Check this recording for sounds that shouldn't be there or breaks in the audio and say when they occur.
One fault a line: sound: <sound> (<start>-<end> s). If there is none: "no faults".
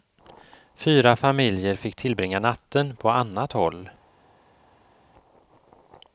no faults